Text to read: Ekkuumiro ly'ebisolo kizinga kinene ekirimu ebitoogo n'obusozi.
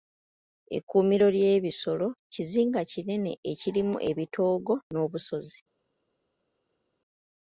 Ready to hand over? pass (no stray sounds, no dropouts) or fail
pass